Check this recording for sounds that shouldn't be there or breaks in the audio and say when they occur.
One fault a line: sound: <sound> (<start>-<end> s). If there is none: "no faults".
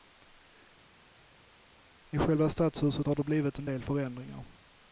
no faults